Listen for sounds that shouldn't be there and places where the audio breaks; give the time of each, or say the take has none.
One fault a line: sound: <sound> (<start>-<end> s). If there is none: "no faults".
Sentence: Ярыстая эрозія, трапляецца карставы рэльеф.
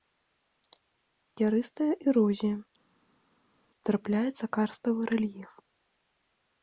no faults